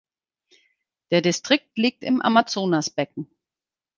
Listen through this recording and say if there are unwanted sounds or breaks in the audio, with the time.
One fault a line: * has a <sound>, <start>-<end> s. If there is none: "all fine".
all fine